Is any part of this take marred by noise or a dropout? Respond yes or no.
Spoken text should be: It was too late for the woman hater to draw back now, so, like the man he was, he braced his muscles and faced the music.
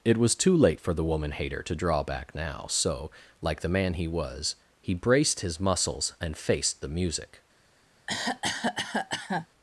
yes